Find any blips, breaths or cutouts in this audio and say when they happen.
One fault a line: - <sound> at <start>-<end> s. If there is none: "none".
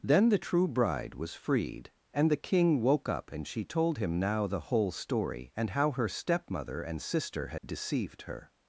- dropout at 7.6-7.6 s